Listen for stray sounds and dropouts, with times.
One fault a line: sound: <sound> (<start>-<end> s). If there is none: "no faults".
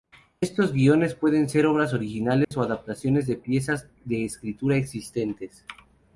sound: dropout (2.4-2.5 s)